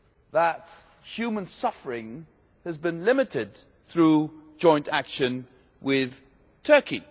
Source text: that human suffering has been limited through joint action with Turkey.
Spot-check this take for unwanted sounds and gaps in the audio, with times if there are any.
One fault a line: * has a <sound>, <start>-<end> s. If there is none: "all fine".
all fine